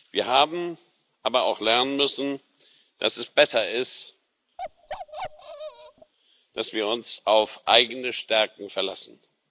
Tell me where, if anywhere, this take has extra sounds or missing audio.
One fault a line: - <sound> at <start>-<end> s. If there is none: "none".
- bark at 4.6-6.1 s